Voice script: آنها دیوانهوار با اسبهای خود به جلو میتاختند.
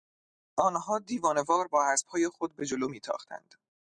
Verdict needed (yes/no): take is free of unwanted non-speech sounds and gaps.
yes